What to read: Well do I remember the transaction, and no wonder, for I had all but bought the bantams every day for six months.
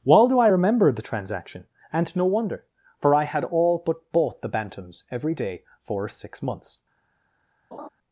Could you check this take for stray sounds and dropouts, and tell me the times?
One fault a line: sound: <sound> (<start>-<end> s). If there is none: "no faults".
sound: laugh (7.7-7.9 s)